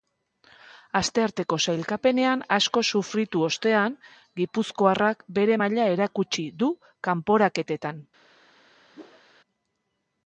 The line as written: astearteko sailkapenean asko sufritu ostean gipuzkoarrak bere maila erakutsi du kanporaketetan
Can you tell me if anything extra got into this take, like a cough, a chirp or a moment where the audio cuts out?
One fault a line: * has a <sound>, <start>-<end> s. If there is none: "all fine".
* has a whoosh, 8.9-9.2 s